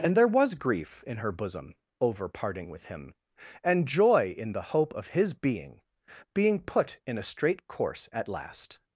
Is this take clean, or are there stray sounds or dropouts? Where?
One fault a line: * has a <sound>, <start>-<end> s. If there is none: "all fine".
all fine